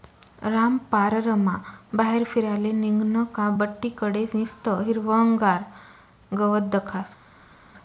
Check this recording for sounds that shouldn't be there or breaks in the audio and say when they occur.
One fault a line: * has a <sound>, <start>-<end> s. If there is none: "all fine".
all fine